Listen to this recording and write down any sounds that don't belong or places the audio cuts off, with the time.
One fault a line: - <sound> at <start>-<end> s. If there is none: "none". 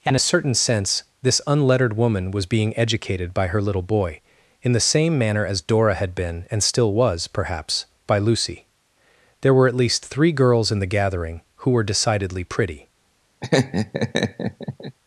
- laugh at 13.4-15.0 s